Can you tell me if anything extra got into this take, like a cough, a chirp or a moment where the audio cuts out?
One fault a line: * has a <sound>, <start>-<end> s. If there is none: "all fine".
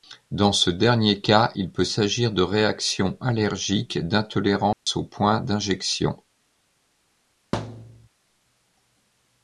* has a dropout, 4.7-4.9 s
* has a thud, 7.5-8.1 s